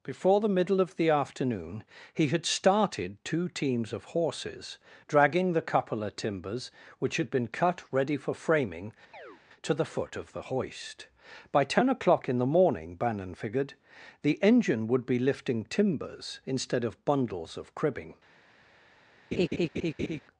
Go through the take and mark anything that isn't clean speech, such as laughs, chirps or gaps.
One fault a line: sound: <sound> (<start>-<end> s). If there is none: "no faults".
sound: chirp (9.1-9.4 s)
sound: laugh (19.3-20.2 s)